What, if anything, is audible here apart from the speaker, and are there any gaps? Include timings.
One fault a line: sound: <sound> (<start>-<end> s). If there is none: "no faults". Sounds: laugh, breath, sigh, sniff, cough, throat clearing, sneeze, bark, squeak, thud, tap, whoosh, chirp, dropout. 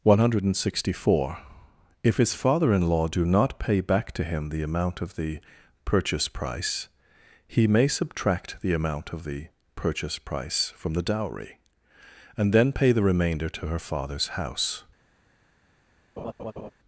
sound: laugh (16.2-16.7 s)